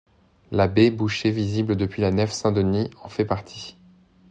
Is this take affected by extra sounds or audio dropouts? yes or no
no